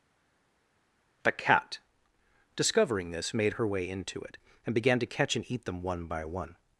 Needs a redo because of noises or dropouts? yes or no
no